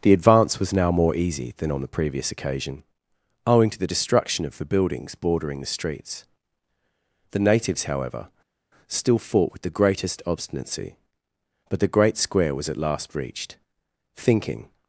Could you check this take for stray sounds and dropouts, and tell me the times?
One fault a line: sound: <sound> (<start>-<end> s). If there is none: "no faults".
no faults